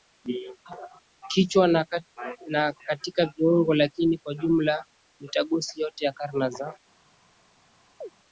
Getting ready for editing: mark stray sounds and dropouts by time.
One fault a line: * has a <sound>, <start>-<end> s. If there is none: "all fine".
* has a chirp, 8.0-8.1 s